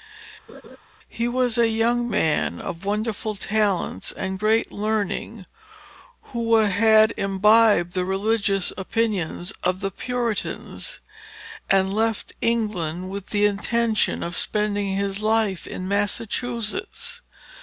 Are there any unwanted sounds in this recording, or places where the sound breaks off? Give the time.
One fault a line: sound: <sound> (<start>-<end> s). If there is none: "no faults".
sound: laugh (0.5-0.8 s)